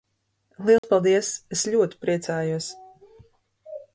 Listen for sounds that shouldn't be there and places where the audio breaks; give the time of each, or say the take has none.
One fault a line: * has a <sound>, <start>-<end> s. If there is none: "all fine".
* has a dropout, 0.8-0.8 s